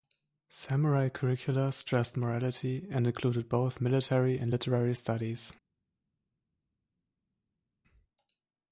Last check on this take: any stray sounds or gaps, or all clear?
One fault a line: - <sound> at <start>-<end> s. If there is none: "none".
none